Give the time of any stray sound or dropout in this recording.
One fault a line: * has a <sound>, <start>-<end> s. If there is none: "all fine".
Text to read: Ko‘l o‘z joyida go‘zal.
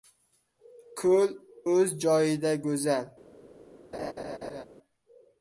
* has a laugh, 3.9-4.7 s